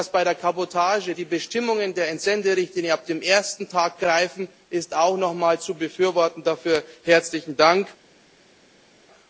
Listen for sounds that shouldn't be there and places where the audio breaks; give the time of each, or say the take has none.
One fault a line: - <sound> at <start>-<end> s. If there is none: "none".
none